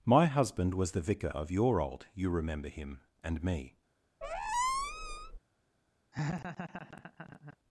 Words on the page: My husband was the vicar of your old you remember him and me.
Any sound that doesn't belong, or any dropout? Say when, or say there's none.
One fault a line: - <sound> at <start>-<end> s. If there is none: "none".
- squeak at 4.2-5.4 s
- laugh at 6.1-7.6 s